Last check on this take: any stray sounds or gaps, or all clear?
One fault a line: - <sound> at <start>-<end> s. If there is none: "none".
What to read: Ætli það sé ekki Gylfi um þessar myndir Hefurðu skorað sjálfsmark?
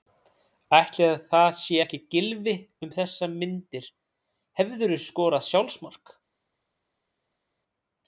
none